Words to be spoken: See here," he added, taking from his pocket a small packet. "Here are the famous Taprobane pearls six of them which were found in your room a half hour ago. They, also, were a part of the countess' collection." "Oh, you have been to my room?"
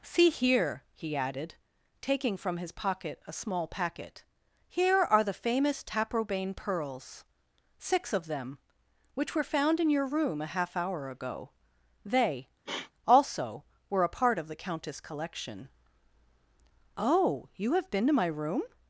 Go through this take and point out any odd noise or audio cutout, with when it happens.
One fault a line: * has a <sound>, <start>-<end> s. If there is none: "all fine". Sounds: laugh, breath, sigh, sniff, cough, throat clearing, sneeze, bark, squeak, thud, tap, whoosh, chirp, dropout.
* has a sniff, 12.7-12.9 s